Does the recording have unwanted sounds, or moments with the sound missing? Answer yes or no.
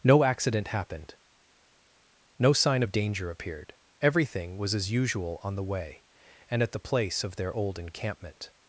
no